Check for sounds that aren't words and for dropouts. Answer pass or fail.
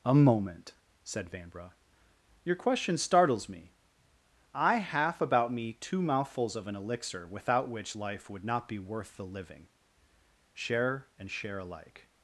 pass